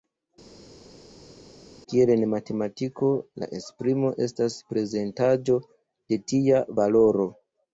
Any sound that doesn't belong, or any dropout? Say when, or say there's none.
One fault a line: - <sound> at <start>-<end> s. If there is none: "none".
none